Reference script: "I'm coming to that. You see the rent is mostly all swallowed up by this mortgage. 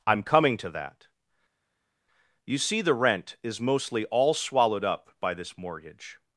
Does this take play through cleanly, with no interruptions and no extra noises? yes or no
yes